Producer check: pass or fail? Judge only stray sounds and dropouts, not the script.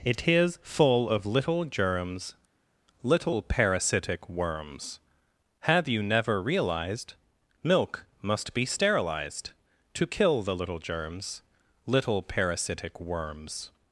pass